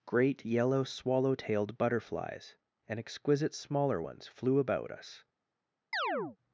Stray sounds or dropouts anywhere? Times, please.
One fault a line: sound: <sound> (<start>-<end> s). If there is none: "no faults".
sound: chirp (5.9-6.4 s)